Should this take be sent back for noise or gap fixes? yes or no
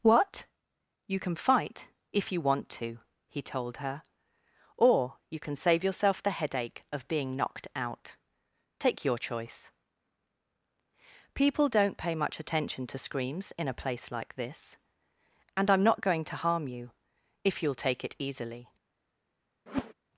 yes